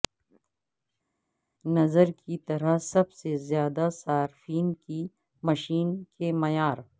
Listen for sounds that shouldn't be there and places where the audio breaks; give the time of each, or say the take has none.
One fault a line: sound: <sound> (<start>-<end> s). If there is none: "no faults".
no faults